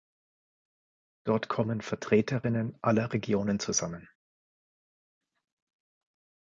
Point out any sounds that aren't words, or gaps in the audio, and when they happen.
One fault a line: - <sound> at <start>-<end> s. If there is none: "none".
none